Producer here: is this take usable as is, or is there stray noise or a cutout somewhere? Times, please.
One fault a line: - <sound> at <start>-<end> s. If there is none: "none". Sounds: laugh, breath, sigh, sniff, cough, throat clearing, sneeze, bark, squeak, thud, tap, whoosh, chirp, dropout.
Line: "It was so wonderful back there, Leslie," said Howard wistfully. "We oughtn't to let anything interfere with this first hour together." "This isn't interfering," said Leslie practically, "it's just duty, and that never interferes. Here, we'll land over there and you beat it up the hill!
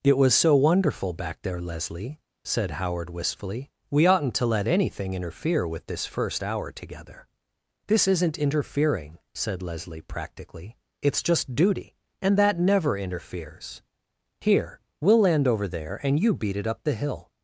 none